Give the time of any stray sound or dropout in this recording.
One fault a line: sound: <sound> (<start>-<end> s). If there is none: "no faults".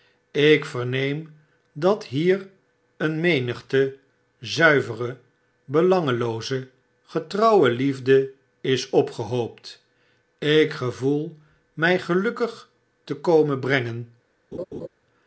sound: laugh (14.5-14.9 s)